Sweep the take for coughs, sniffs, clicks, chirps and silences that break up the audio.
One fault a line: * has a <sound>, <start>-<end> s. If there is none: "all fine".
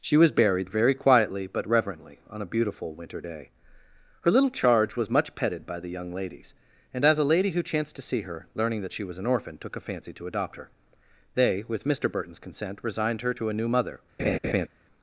* has a laugh, 14.2-14.7 s